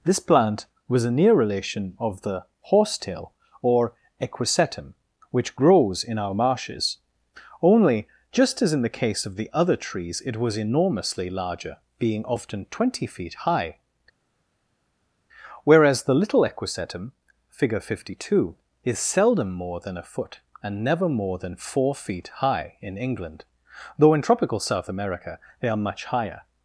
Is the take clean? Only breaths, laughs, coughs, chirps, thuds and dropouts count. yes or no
yes